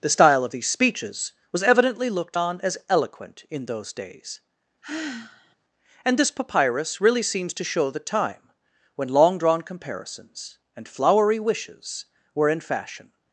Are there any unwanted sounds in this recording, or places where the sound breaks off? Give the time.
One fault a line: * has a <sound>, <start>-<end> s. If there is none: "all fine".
* has a sigh, 4.8-5.6 s